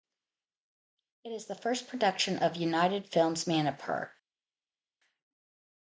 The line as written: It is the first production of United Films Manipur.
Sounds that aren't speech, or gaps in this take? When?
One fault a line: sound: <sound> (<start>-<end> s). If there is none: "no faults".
no faults